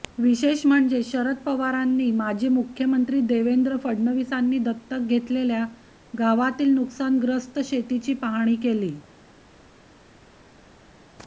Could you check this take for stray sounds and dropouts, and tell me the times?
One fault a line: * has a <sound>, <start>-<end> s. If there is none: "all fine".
all fine